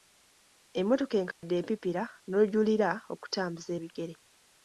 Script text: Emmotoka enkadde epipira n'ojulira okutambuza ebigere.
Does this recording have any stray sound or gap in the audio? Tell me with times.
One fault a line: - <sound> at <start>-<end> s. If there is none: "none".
- dropout at 1.3-1.4 s